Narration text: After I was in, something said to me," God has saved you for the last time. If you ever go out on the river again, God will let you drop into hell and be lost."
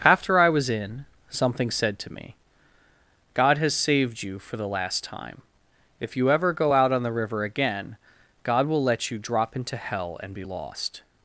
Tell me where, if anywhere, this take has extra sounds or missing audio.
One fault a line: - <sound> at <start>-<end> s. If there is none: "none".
none